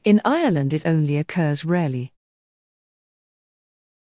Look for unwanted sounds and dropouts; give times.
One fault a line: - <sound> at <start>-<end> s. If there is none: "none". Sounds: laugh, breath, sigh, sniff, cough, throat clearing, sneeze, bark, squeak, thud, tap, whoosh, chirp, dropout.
none